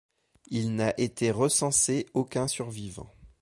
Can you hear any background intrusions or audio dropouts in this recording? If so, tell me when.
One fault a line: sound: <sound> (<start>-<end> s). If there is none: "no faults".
no faults